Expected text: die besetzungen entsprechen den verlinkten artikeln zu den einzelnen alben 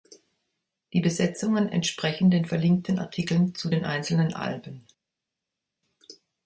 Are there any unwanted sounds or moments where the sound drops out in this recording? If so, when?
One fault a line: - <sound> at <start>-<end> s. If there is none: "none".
none